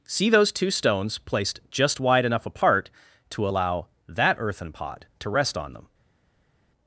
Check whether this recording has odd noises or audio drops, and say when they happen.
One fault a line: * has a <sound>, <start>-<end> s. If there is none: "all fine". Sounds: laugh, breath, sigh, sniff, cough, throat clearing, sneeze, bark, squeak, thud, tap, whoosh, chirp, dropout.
all fine